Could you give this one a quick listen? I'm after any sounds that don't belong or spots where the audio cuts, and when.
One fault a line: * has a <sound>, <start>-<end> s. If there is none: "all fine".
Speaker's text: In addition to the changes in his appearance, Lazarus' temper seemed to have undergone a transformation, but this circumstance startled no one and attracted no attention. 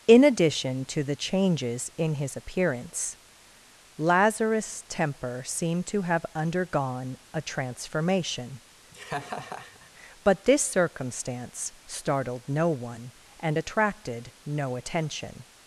* has a laugh, 8.9-9.9 s